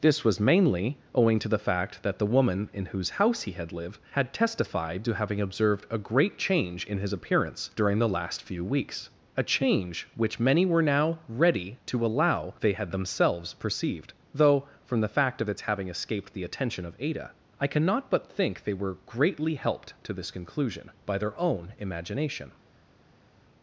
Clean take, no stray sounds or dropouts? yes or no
yes